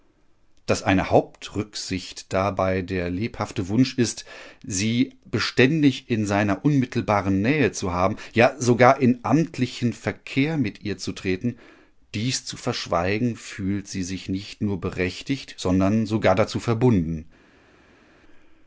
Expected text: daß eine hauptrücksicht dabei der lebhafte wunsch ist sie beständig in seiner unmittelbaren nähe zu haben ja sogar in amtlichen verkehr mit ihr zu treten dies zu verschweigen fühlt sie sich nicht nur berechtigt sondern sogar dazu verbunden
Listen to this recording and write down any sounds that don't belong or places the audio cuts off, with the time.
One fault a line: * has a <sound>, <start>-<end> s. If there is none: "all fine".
all fine